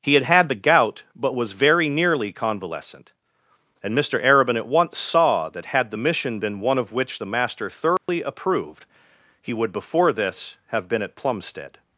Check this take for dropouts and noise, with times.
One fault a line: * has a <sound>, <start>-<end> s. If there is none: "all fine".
* has a dropout, 8.0-8.1 s